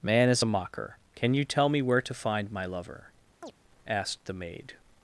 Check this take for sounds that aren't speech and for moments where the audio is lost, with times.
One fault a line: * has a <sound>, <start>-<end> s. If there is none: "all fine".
* has a chirp, 3.4-3.5 s